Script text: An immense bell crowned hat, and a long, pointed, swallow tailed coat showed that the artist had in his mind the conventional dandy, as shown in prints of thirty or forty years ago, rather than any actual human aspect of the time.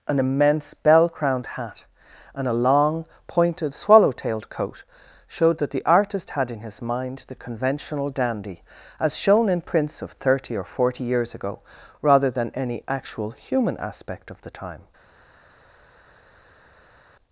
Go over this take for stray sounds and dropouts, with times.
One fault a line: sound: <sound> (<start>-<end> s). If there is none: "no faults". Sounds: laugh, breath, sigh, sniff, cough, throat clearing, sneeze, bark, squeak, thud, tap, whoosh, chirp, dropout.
no faults